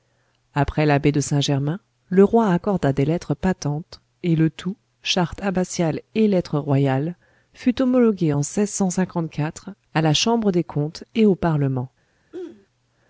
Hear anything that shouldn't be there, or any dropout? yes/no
yes